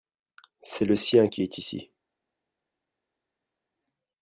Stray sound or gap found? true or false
false